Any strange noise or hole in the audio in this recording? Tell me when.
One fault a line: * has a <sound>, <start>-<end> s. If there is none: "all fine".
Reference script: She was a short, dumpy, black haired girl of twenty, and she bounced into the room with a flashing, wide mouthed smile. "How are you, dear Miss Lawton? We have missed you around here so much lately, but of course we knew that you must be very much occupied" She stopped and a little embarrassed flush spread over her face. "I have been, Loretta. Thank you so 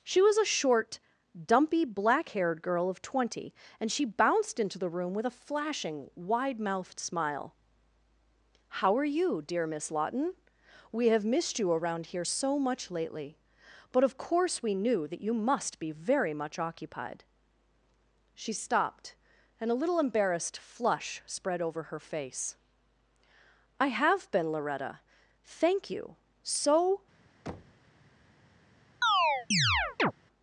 * has a thud, 27.5-27.8 s
* has a chirp, 29.0-30.1 s